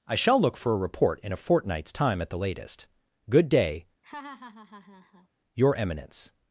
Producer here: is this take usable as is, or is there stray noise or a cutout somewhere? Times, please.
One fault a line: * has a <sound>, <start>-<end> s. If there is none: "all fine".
* has a laugh, 4.0-5.3 s